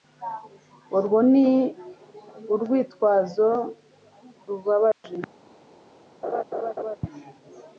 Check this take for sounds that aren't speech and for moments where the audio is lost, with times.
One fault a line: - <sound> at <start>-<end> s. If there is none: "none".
- dropout at 4.9-5.0 s
- laugh at 6.2-7.0 s